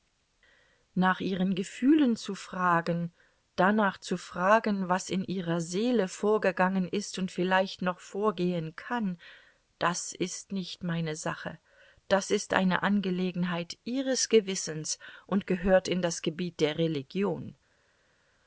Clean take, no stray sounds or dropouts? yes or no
yes